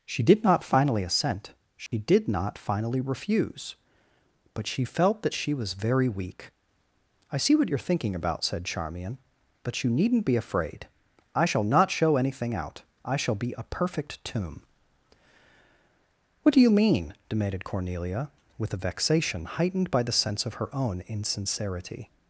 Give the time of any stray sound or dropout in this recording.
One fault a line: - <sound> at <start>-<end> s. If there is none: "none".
- dropout at 1.9-1.9 s